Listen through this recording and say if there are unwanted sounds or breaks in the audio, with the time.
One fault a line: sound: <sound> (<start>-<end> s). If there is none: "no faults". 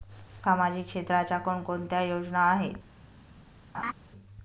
sound: laugh (3.7-3.9 s)